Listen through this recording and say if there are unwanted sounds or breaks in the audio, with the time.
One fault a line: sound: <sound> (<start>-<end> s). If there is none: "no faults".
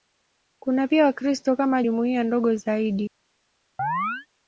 sound: chirp (3.8-4.3 s)